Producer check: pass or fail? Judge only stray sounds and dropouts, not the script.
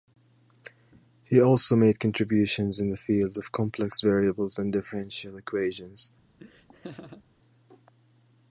fail